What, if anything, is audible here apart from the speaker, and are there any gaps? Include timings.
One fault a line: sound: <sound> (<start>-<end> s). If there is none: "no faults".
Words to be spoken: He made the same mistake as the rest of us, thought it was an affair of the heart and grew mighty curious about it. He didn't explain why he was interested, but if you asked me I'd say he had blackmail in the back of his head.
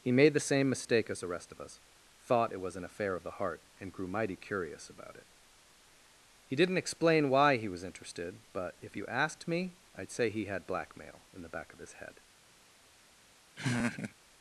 sound: laugh (13.6-14.1 s)